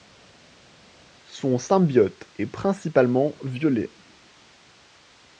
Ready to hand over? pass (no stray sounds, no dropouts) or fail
pass